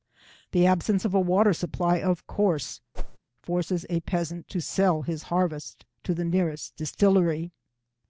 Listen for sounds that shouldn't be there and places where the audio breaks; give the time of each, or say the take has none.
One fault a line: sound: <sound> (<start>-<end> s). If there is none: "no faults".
sound: whoosh (2.9-3.2 s)